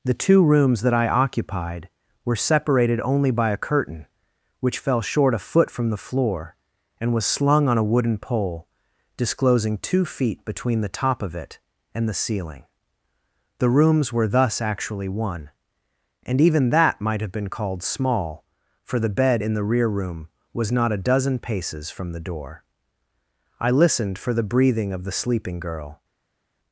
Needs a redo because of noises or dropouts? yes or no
no